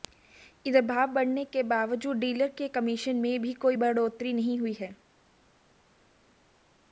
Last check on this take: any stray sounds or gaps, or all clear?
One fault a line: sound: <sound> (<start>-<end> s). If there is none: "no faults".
no faults